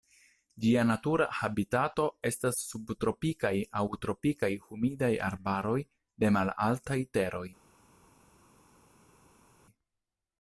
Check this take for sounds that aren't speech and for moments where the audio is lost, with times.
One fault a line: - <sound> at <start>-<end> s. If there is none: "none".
none